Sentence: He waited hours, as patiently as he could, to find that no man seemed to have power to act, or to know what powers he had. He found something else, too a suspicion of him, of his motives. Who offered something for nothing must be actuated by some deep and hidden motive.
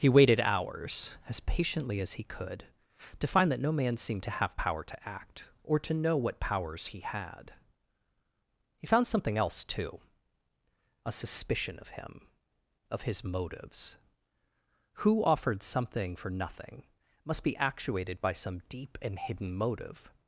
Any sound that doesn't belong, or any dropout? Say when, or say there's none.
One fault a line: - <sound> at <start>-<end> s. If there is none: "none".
none